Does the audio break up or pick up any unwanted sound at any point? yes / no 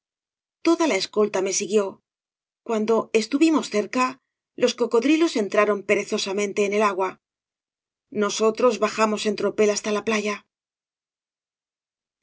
no